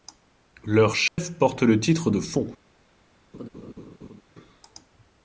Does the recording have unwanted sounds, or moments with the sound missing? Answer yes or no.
yes